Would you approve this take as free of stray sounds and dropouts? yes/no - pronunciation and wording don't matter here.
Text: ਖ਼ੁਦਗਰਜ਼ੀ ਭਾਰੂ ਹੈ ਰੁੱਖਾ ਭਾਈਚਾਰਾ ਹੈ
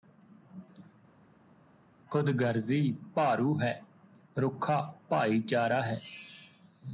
yes